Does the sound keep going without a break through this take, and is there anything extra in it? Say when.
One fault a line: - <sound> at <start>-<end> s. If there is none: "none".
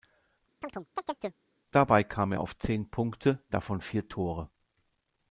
- chirp at 0.6-1.4 s